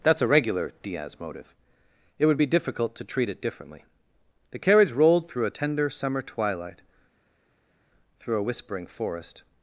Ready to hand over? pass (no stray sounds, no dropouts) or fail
pass